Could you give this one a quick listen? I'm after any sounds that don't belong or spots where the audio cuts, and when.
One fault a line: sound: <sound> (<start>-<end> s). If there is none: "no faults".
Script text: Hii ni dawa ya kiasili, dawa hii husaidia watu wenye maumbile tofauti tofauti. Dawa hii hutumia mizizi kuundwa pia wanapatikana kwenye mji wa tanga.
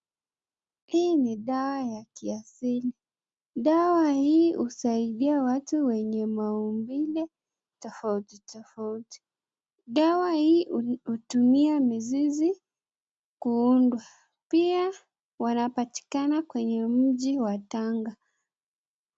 no faults